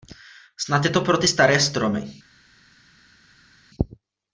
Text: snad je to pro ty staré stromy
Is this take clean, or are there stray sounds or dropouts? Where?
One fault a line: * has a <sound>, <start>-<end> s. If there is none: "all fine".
all fine